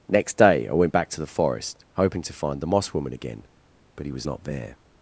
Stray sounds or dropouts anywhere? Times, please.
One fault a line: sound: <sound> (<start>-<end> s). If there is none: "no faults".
no faults